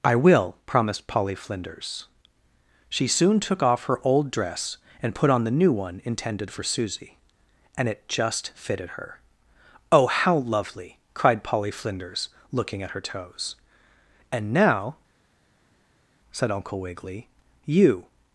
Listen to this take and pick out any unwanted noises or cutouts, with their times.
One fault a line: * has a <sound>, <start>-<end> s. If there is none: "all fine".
all fine